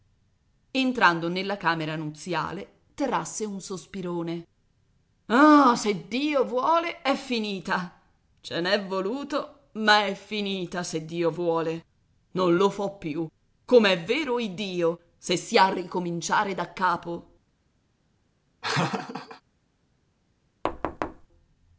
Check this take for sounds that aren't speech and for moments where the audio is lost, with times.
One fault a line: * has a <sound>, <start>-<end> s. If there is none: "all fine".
* has a laugh, 18.6-19.4 s
* has a thud, 20.6-21.3 s